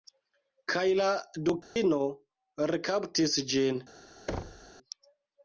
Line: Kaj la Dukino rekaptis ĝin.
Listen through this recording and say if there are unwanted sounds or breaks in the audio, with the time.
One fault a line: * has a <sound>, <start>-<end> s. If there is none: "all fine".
* has a dropout, 1.6-1.8 s
* has a thud, 4.3-4.7 s